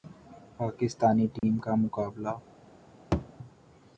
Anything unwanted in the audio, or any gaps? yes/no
yes